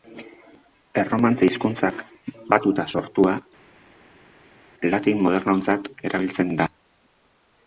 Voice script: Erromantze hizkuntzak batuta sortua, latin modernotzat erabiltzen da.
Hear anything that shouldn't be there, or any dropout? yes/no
no